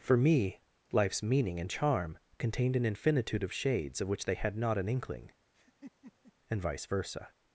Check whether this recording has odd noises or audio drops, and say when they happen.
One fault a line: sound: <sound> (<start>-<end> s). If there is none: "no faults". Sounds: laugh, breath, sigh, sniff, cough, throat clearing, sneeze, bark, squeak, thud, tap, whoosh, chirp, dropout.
sound: laugh (5.5-6.3 s)